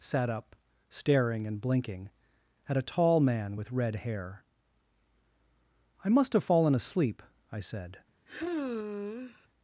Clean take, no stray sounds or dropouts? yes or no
no